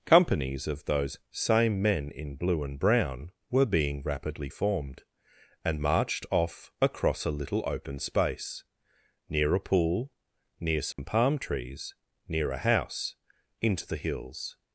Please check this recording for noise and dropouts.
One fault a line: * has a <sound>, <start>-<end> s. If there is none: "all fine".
* has a dropout, 10.9-11.0 s